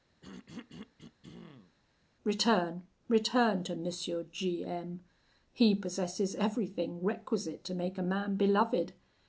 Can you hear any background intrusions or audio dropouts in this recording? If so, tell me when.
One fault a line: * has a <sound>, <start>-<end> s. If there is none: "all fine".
* has a throat clearing, 0.2-1.8 s